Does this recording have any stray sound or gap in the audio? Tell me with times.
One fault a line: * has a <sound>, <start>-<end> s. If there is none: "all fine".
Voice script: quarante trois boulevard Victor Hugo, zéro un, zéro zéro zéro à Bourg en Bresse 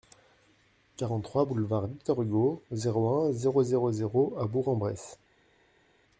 all fine